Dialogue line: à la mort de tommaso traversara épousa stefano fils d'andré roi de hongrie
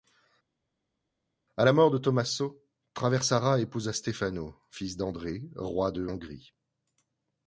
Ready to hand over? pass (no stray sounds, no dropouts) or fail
pass